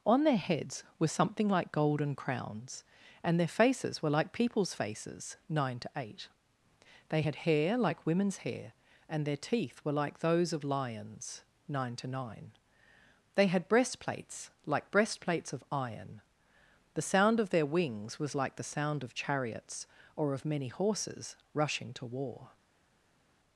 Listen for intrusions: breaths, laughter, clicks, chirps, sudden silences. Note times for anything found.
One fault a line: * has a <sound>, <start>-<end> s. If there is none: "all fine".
all fine